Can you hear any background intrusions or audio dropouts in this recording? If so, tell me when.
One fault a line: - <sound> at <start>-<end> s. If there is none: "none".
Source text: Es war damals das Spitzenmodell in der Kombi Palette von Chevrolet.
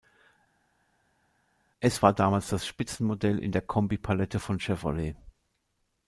none